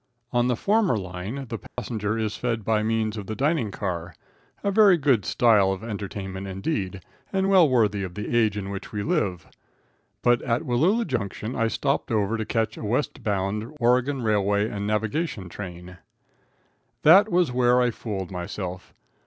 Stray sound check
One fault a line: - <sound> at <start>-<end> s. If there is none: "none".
- dropout at 1.7-1.8 s